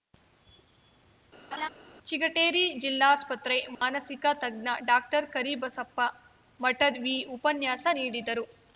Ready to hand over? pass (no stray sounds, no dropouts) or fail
fail